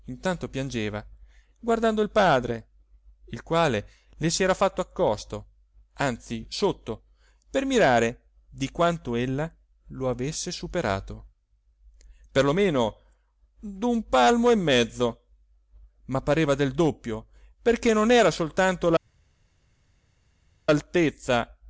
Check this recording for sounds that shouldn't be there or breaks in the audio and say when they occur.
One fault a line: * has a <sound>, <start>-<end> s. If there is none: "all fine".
all fine